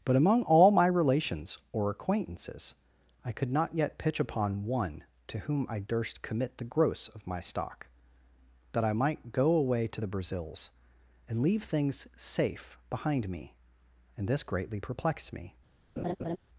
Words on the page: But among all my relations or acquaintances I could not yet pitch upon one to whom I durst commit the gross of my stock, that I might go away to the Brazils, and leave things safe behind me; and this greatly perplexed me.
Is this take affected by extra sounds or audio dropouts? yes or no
yes